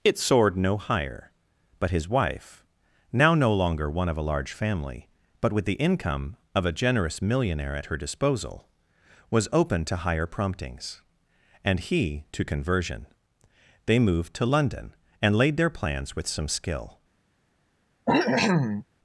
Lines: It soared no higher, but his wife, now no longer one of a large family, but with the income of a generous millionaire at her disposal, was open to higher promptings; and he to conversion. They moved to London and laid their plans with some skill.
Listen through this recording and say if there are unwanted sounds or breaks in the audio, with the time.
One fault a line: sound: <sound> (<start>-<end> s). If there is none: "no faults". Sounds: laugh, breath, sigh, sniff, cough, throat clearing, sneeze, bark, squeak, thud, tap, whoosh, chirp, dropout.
sound: cough (18.1-18.9 s)